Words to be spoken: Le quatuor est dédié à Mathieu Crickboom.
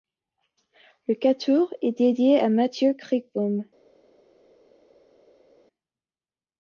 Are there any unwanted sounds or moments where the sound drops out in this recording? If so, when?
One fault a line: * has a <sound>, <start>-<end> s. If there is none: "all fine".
all fine